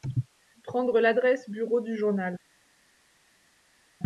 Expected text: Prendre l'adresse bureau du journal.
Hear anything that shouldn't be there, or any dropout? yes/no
no